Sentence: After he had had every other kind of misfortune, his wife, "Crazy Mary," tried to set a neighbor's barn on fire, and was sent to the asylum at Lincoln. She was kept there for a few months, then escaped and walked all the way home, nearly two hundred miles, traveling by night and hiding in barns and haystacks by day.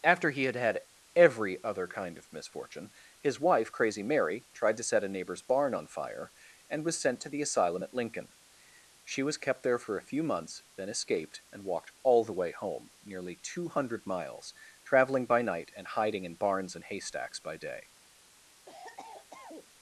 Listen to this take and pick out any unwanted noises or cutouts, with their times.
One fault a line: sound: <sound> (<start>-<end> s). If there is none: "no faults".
sound: cough (18.7-19.7 s)